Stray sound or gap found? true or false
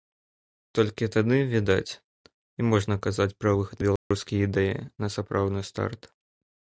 true